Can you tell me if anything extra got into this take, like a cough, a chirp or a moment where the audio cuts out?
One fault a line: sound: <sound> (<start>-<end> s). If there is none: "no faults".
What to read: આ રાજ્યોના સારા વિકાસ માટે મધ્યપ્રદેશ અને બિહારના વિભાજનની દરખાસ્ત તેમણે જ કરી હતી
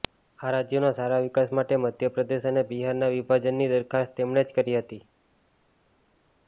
no faults